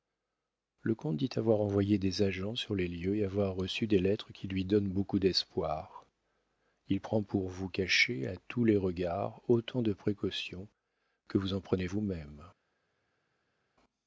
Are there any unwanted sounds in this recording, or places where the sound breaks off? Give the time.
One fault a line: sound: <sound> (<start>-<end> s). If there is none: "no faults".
no faults